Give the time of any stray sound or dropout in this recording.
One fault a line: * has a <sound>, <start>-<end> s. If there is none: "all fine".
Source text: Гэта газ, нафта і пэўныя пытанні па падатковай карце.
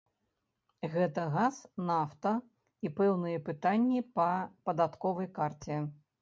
all fine